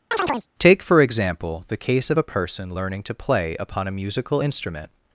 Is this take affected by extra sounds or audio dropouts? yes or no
yes